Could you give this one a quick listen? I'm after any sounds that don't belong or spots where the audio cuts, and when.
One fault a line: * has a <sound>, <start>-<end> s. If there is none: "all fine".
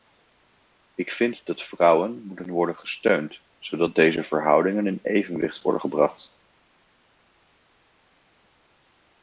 all fine